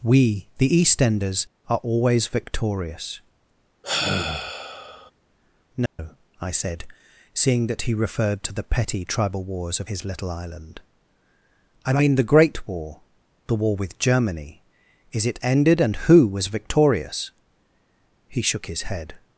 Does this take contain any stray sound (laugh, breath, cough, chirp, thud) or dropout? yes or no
yes